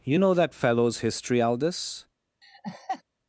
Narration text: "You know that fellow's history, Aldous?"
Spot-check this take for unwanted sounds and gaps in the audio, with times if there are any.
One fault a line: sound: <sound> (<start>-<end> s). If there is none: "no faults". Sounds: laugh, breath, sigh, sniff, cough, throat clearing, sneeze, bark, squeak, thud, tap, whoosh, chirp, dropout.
sound: laugh (2.4-3.0 s)